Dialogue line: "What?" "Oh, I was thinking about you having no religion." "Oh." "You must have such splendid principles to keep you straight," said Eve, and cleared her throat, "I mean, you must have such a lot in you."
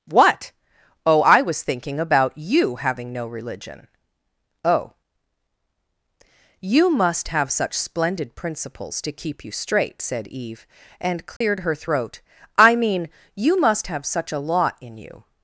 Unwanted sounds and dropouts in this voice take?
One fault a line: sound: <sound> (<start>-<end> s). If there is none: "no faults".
sound: dropout (11.4-11.4 s)